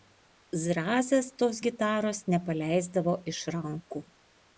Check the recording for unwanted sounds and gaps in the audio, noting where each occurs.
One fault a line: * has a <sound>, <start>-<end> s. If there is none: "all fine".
all fine